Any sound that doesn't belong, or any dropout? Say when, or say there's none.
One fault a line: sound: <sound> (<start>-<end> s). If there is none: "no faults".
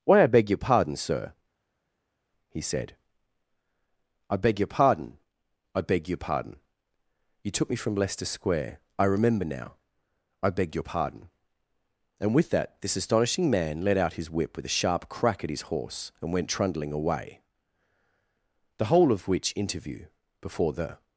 no faults